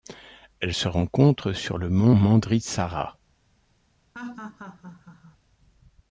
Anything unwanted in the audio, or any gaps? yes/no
yes